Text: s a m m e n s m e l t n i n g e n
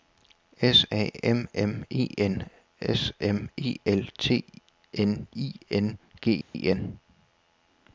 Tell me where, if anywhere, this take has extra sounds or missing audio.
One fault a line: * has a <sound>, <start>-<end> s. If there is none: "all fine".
* has a dropout, 6.4-6.5 s